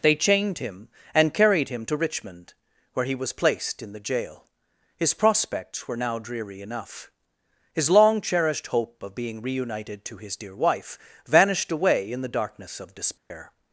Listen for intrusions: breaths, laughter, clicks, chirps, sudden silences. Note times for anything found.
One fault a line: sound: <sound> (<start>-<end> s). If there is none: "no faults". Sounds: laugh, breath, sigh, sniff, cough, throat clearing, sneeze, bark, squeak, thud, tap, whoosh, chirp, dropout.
sound: dropout (13.2-13.3 s)